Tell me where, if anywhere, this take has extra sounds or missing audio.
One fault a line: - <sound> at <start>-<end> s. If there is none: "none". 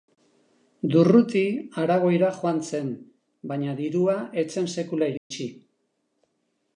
- dropout at 5.2-5.3 s